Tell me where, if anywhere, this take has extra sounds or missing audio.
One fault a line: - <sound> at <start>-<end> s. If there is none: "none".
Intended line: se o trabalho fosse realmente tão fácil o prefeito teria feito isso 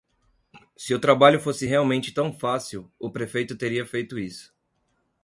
none